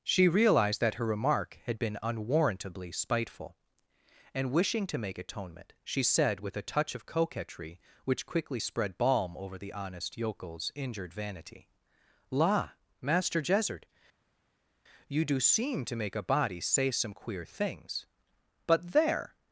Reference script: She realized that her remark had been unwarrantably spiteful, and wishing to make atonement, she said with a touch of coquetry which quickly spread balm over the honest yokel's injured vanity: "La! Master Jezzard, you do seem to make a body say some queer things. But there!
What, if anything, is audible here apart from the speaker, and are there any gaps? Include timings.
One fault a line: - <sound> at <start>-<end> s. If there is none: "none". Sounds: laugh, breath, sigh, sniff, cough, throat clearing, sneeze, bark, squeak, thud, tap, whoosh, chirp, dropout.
none